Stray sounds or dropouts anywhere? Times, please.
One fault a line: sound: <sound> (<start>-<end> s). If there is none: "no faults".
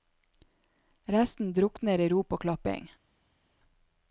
no faults